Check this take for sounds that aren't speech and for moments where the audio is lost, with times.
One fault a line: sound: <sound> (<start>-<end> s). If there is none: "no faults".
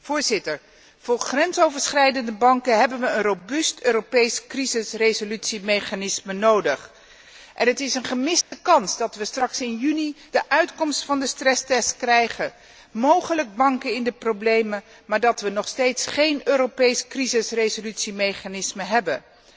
sound: dropout (8.4-8.5 s)